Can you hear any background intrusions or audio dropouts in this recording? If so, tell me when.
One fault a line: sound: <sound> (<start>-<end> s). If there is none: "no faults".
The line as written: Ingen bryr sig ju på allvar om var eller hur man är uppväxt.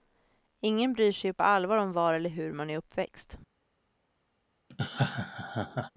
sound: laugh (4.7-5.9 s)